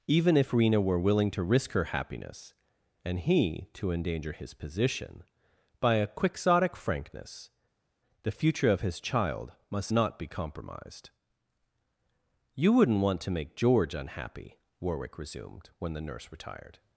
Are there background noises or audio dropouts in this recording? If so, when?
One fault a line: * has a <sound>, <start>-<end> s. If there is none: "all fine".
all fine